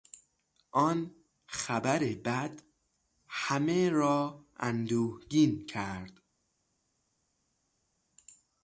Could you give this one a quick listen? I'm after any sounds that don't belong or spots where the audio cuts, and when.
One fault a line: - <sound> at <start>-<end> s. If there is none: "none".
none